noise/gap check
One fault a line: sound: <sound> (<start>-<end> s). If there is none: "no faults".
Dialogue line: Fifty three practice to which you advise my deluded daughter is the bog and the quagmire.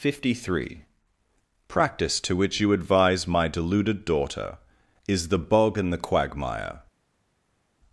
no faults